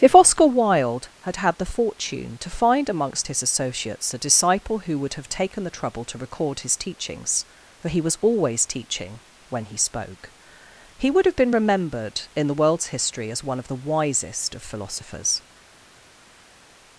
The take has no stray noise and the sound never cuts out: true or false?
true